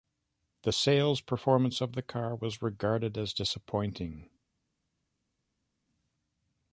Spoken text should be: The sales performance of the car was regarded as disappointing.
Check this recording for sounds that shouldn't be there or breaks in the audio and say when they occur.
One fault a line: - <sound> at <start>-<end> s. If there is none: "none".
none